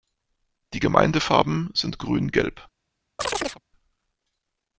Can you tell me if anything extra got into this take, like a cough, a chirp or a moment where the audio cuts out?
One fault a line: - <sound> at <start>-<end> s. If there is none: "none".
- chirp at 3.2-3.6 s